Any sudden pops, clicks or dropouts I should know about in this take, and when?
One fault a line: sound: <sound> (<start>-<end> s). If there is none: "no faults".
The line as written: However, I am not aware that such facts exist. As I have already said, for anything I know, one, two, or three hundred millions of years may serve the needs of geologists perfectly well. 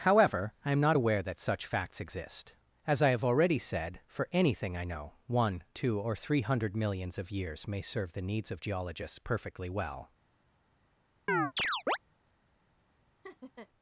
sound: chirp (11.3-12.0 s)
sound: laugh (13.2-13.7 s)